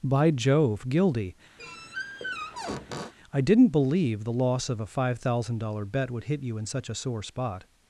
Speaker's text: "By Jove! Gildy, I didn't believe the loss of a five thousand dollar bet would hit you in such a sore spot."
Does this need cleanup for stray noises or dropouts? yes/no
yes